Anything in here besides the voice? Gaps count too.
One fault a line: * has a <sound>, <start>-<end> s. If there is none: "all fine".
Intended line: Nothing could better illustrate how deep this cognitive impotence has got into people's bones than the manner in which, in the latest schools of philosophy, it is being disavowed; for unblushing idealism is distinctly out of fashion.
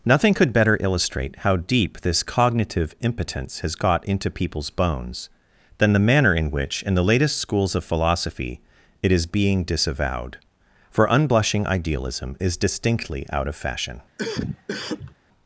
* has a cough, 14.2-15.2 s